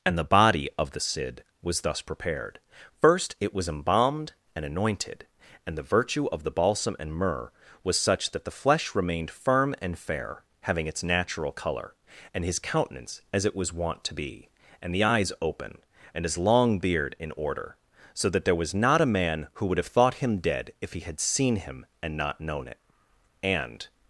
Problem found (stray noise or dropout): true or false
false